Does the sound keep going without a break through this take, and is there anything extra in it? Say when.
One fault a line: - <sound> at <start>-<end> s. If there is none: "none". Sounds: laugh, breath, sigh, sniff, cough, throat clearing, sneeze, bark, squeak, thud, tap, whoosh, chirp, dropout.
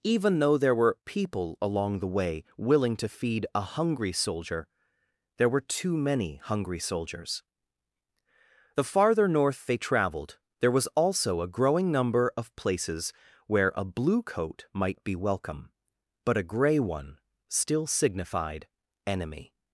none